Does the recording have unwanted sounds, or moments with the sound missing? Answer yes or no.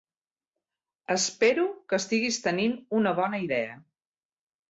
no